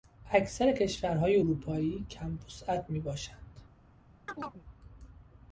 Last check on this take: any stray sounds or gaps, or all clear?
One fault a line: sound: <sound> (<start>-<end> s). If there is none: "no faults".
sound: chirp (4.3-4.7 s)